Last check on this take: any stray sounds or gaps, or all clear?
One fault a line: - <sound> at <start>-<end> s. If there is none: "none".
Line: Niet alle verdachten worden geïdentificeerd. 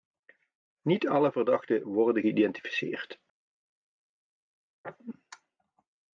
none